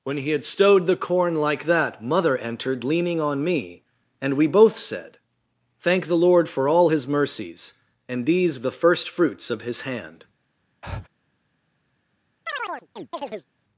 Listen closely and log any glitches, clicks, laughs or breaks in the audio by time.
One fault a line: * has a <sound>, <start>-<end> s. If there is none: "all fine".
* has a breath, 10.8-11.1 s
* has a chirp, 12.5-13.5 s